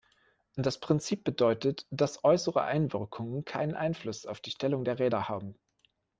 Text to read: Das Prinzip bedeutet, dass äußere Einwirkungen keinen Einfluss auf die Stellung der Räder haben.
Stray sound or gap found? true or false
false